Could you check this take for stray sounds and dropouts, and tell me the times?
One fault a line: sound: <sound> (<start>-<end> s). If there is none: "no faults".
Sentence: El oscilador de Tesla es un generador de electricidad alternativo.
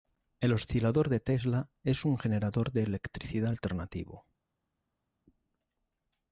no faults